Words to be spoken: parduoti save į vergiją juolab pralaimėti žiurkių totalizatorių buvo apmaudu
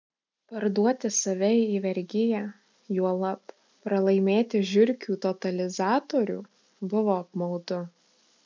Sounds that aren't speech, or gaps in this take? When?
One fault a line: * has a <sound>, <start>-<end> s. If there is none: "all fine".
all fine